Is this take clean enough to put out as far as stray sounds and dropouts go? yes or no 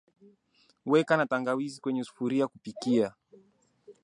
yes